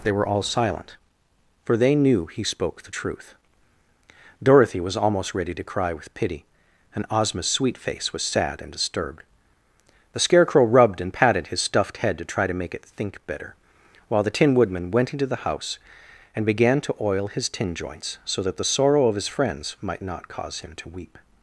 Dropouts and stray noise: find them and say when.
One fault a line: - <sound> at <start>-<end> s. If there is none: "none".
none